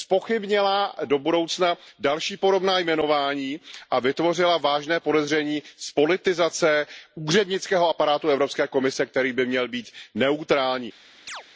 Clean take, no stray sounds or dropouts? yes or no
no